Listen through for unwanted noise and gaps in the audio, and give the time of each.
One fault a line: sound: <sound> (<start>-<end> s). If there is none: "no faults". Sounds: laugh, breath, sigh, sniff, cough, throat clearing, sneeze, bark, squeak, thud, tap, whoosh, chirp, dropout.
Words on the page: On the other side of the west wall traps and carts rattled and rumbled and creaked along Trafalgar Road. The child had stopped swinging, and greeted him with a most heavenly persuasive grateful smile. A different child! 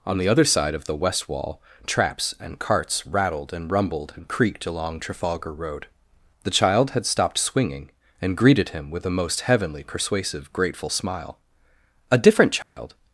sound: dropout (12.6-12.8 s)